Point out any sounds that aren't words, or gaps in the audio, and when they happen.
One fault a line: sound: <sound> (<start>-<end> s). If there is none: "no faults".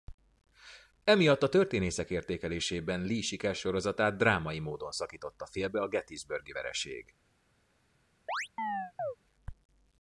sound: chirp (8.3-9.2 s)